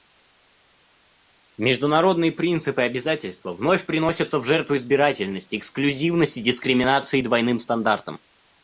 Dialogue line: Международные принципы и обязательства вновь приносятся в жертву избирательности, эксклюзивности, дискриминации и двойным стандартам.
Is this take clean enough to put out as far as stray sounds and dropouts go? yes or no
yes